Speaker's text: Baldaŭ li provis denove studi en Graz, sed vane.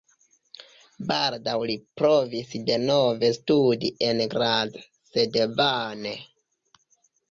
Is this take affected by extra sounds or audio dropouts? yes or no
no